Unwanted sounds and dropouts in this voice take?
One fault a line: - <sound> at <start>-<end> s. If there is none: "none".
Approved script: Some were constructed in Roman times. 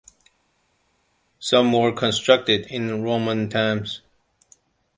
none